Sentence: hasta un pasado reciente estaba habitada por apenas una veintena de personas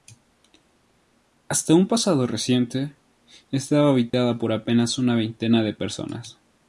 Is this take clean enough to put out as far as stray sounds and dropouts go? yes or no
no